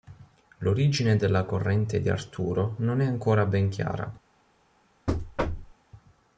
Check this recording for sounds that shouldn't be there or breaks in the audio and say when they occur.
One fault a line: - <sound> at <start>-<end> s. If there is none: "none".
- thud at 5.1-5.7 s